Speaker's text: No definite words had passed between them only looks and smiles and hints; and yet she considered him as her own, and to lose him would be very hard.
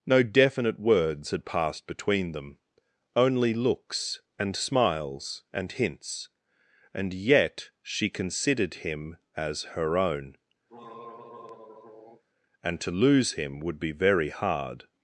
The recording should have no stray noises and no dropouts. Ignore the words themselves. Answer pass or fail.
fail